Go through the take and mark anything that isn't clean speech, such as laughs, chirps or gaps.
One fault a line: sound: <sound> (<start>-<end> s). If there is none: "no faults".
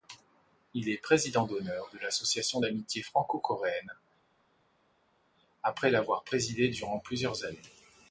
no faults